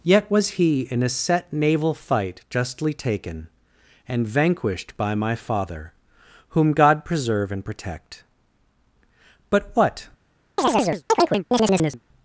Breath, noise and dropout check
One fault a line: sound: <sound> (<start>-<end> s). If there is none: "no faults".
sound: chirp (10.6-12.0 s)